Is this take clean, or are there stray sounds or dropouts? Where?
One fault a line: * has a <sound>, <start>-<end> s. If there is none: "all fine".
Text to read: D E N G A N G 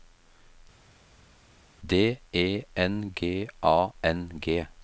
all fine